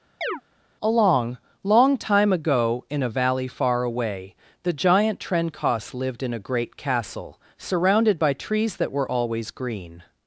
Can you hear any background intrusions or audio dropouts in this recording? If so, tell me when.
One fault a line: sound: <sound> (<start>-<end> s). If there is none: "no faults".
sound: chirp (0.2-0.4 s)